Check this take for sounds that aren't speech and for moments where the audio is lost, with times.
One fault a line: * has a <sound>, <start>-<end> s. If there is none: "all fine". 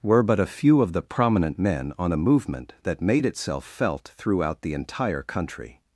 all fine